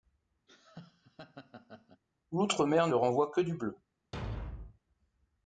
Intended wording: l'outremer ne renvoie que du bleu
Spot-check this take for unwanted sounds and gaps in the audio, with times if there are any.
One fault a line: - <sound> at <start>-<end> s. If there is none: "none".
- laugh at 0.5-2.0 s
- thud at 4.1-4.8 s